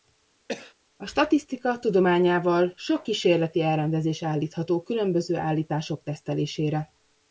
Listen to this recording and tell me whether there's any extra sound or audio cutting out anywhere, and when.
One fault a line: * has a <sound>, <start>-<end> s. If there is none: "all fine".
* has a cough, 0.5-0.7 s